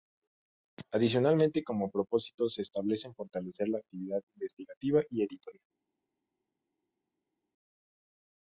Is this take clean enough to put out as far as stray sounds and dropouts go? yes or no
yes